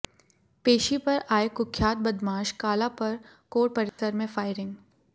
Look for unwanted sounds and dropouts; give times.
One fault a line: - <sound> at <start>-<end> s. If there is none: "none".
- dropout at 3.9-4.0 s